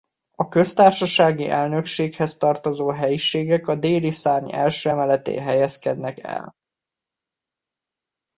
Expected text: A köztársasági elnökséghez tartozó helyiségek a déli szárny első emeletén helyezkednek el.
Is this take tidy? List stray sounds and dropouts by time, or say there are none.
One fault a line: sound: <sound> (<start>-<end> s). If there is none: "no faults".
no faults